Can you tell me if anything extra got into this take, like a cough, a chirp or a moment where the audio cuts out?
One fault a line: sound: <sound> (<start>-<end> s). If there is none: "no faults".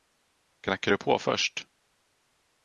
no faults